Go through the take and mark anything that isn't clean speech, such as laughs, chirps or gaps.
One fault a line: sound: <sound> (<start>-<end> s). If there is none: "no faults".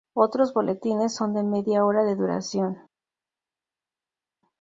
no faults